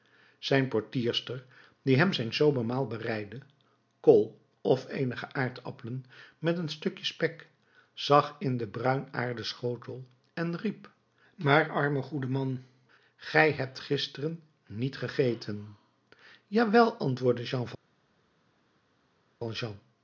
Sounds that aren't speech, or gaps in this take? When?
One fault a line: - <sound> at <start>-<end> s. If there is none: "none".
none